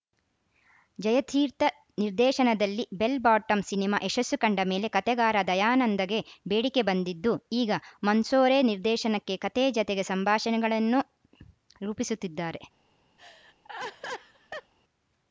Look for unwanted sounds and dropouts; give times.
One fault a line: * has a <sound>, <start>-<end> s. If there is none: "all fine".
* has a laugh, 13.2-14.7 s